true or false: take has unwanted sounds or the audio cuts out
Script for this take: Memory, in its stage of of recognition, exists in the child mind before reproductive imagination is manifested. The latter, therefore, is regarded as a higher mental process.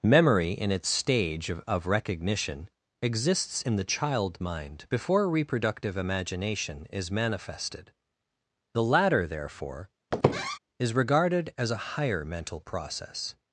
true